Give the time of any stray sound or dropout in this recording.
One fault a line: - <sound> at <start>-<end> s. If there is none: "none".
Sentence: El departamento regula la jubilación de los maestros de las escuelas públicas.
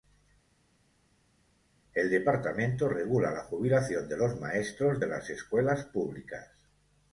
none